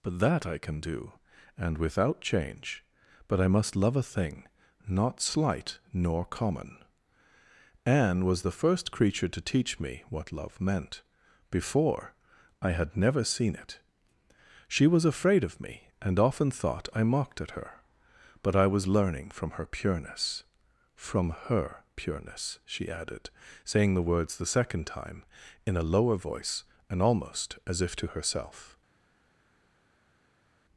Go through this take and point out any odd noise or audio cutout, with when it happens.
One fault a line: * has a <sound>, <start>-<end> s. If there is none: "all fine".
all fine